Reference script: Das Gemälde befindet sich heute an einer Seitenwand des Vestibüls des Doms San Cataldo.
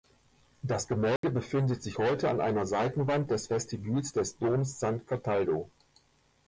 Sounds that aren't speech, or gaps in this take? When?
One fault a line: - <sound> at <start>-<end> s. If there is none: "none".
- dropout at 1.2-1.2 s